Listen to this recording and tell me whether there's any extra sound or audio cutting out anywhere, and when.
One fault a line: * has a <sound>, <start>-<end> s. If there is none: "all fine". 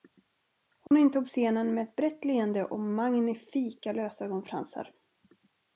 * has a dropout, 0.9-0.9 s